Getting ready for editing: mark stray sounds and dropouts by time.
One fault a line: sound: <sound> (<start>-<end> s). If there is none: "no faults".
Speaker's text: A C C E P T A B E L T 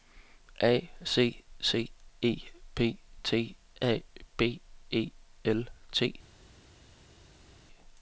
no faults